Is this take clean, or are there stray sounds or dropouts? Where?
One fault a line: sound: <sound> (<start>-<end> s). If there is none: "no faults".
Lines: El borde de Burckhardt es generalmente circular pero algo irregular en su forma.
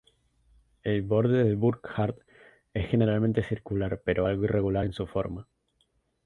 no faults